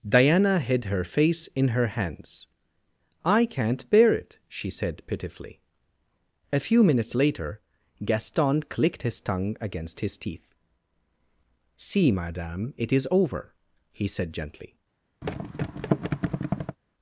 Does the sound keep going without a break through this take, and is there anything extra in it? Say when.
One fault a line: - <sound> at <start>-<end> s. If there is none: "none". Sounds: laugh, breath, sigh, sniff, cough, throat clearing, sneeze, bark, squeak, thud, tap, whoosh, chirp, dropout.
- thud at 15.2-16.8 s